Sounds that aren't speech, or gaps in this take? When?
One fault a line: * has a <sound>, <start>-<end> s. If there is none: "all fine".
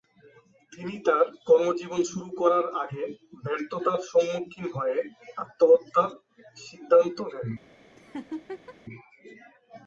* has a laugh, 8.0-8.8 s